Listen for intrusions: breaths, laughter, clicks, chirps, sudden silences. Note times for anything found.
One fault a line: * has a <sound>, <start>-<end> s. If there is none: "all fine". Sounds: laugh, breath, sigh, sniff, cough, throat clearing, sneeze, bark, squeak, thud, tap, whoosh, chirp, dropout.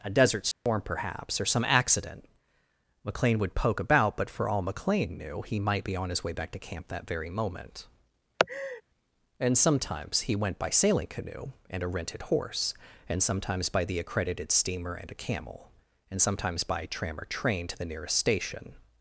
* has a dropout, 0.5-0.7 s
* has a laugh, 8.4-8.8 s